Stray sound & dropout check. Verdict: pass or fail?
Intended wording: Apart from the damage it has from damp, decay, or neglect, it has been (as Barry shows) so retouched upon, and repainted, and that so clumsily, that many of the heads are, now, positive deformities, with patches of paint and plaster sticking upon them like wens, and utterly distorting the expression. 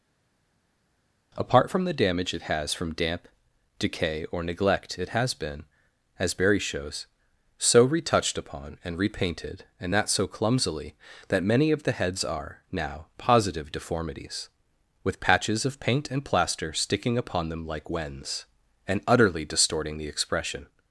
pass